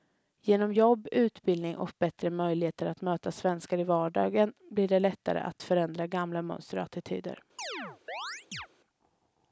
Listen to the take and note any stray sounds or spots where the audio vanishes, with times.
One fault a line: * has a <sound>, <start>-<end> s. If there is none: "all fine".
* has a chirp, 7.6-8.7 s